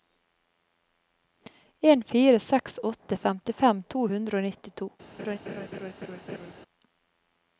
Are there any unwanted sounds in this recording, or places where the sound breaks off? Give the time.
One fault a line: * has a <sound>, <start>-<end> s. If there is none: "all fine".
* has a laugh, 5.2-6.5 s